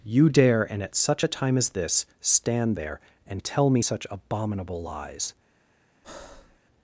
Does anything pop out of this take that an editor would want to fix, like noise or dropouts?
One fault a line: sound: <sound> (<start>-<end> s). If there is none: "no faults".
sound: breath (6.0-6.6 s)